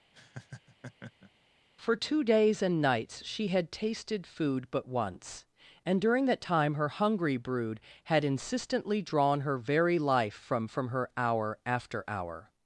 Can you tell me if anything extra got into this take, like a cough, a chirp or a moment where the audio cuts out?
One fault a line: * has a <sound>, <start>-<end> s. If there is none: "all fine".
* has a laugh, 0.1-1.3 s